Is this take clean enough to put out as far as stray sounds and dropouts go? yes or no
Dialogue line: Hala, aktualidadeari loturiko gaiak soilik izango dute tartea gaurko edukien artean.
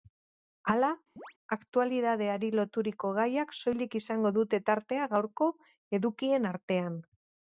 no